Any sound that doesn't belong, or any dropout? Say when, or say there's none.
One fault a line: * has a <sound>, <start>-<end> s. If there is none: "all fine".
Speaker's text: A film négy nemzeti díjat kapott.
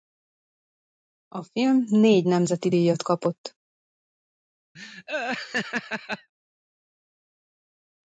* has a laugh, 4.7-6.3 s